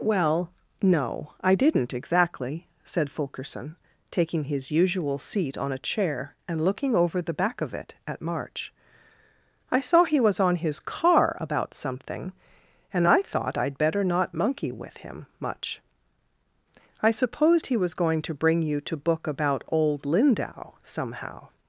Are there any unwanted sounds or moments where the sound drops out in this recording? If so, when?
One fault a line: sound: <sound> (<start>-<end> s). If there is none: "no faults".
no faults